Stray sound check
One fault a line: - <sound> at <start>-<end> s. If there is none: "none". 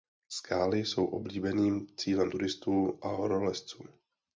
none